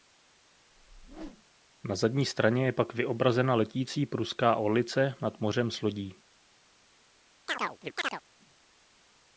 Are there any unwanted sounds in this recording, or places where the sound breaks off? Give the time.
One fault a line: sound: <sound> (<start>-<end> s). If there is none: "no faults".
sound: whoosh (0.7-1.4 s)
sound: chirp (7.5-8.2 s)